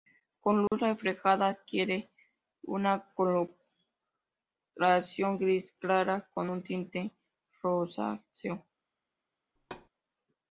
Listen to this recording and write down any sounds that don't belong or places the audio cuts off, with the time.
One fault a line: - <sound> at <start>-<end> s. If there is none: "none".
- dropout at 0.7-0.7 s
- thud at 9.6-9.9 s